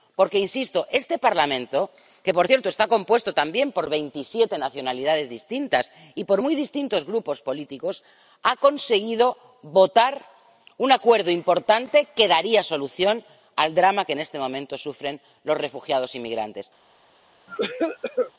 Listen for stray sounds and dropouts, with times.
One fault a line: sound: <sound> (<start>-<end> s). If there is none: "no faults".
sound: cough (17.5-18.3 s)